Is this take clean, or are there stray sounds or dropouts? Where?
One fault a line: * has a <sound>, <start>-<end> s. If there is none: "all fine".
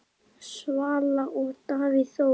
all fine